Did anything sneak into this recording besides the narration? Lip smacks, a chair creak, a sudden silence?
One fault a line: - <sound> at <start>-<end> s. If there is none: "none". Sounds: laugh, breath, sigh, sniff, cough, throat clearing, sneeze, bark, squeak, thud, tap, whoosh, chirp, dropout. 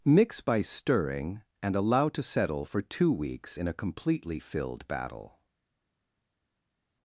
none